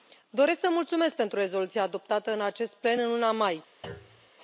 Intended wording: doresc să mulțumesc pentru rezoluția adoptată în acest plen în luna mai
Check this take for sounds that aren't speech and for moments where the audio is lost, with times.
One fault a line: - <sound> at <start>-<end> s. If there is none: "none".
- thud at 3.8-4.3 s